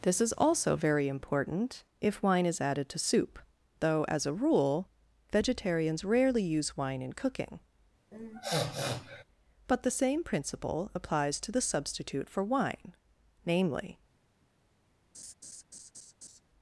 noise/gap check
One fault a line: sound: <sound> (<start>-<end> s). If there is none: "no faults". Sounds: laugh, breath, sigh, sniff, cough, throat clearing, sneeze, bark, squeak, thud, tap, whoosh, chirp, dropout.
sound: sniff (8.1-9.2 s)
sound: laugh (15.1-16.4 s)